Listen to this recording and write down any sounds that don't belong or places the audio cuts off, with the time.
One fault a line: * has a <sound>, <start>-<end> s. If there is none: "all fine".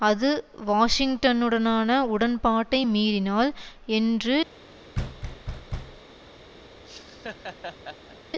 * has a thud, 4.9-6.0 s
* has a laugh, 6.8-8.2 s